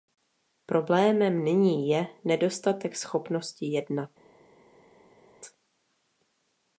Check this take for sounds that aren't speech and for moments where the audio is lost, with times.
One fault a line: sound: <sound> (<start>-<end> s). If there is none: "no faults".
no faults